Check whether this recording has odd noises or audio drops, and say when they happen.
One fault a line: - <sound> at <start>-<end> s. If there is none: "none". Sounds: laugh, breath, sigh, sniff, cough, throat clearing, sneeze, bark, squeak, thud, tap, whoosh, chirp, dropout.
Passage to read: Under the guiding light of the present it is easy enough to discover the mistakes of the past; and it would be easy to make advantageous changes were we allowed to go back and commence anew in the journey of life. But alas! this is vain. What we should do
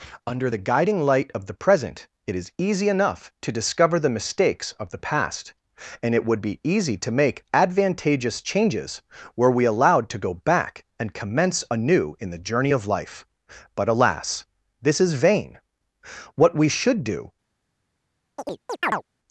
- chirp at 18.4-19.0 s